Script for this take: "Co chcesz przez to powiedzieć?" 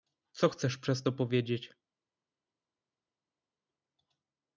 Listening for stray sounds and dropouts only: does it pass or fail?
pass